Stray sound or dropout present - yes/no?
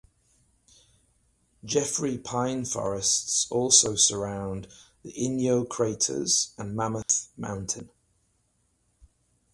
yes